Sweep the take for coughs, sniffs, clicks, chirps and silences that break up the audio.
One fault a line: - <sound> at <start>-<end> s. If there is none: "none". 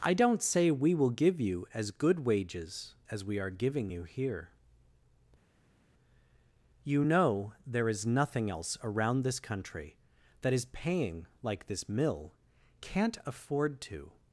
none